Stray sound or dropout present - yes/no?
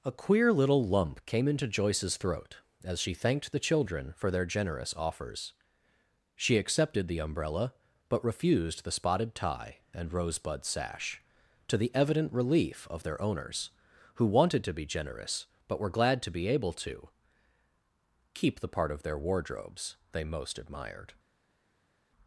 no